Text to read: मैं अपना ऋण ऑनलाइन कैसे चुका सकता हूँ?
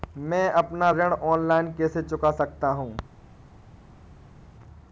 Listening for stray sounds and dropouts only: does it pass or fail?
pass